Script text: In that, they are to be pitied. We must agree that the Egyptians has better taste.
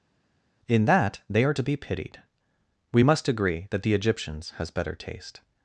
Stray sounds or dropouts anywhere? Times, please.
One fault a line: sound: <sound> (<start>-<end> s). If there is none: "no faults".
no faults